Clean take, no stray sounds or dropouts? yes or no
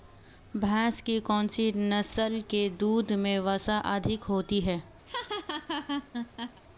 no